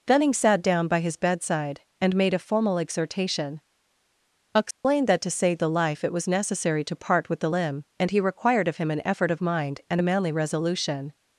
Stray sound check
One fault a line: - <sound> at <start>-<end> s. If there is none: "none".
- dropout at 4.7-4.8 s